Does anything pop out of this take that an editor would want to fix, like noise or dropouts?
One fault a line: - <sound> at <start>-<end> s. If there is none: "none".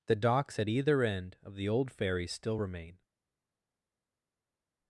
none